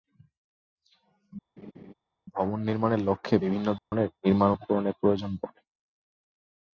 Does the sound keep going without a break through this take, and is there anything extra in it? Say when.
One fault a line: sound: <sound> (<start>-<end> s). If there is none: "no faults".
sound: laugh (1.6-1.9 s)
sound: dropout (3.8-3.9 s)